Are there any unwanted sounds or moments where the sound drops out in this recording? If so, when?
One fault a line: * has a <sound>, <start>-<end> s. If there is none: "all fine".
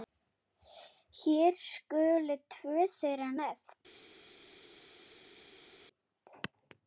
all fine